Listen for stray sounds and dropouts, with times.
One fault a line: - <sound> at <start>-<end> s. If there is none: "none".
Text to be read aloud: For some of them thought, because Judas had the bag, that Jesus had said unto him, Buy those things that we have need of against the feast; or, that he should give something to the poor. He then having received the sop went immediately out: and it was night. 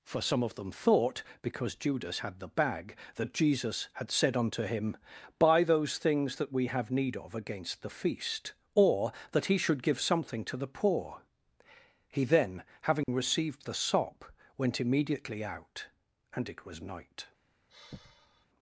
- dropout at 13.0-13.1 s
- sigh at 17.7-18.5 s